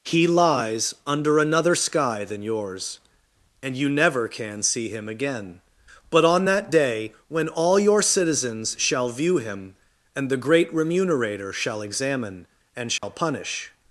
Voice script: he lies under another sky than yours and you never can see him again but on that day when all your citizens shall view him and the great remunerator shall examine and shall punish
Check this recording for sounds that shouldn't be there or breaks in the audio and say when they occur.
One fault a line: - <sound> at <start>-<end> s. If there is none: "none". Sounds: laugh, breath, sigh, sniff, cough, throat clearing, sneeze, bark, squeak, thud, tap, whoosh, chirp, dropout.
- dropout at 13.0-13.0 s